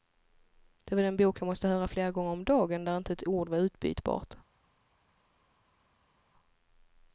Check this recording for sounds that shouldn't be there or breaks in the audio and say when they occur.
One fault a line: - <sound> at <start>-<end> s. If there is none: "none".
none